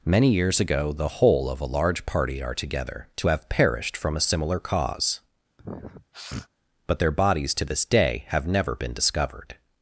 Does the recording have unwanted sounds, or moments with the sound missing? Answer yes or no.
yes